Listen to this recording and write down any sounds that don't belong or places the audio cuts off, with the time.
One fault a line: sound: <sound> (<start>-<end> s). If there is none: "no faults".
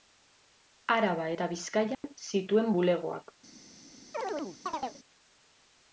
sound: dropout (1.9-2.0 s)
sound: chirp (4.1-5.0 s)